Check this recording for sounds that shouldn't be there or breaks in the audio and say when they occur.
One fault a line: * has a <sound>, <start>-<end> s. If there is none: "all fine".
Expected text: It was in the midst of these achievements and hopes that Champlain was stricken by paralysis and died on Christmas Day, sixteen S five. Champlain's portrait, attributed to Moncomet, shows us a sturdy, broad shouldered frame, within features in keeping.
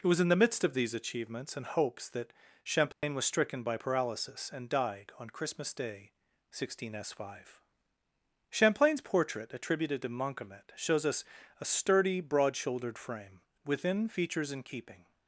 * has a dropout, 2.9-3.0 s